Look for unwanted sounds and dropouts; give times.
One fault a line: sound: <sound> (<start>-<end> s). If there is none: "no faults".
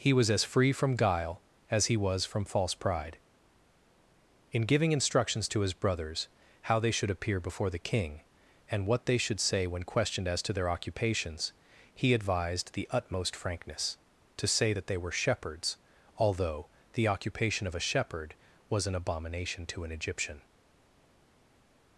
no faults